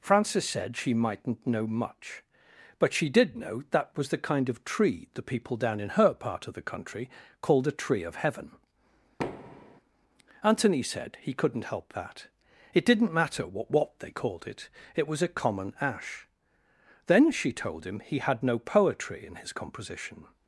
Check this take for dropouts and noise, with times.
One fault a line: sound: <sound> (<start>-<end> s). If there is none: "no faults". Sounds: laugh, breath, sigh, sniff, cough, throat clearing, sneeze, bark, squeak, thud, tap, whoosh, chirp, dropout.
sound: thud (9.2-9.8 s)